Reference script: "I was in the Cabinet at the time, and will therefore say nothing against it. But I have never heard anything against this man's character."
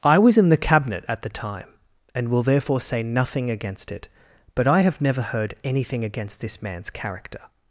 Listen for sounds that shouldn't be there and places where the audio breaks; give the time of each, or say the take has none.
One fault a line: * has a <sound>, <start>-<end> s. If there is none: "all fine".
all fine